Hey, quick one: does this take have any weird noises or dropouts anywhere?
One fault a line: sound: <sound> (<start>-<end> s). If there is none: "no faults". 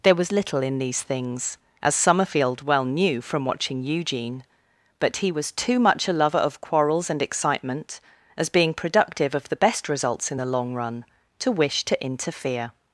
no faults